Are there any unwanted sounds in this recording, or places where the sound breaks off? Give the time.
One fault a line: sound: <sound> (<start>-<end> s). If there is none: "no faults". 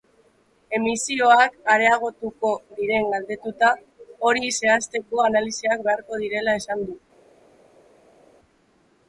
no faults